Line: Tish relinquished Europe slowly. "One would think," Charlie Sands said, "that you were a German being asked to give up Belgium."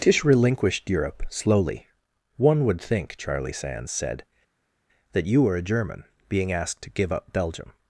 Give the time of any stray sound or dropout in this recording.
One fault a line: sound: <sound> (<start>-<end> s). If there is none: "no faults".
no faults